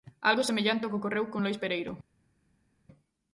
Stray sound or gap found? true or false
false